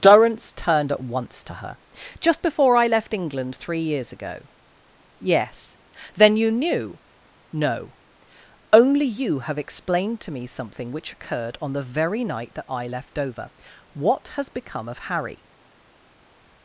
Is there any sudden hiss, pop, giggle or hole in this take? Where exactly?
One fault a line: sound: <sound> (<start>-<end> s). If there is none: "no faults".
no faults